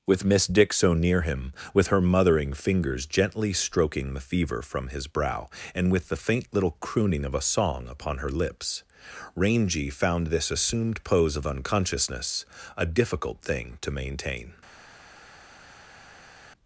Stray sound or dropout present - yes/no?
no